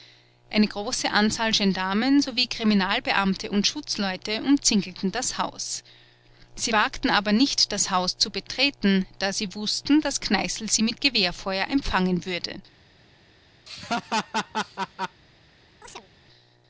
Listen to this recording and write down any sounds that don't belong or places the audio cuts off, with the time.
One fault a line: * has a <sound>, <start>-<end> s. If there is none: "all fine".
* has a laugh, 13.7-15.2 s
* has a chirp, 15.8-16.1 s